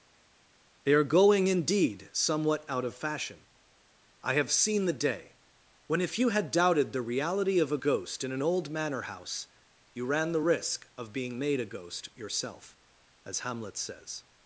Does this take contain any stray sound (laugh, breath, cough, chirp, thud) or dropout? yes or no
no